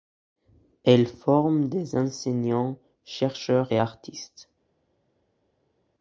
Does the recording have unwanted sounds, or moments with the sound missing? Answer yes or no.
no